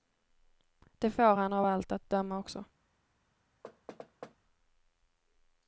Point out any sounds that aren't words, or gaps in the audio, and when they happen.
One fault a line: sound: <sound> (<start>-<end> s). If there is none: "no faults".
sound: thud (3.6-4.4 s)